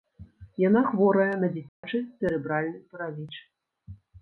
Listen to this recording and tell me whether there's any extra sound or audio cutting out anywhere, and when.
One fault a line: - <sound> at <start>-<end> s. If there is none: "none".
- dropout at 1.7-1.8 s